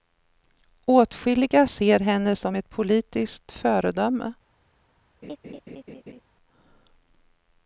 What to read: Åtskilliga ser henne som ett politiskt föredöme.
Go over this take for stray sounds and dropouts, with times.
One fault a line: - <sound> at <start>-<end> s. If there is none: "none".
- laugh at 5.2-6.2 s